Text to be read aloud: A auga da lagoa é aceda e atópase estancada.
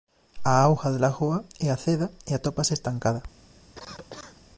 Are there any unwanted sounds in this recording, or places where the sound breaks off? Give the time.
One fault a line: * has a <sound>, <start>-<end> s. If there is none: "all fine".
* has a cough, 3.8-4.5 s